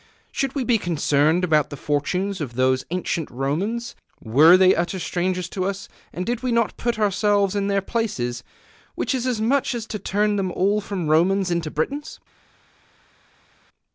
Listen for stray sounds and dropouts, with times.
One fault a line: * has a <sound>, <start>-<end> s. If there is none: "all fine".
all fine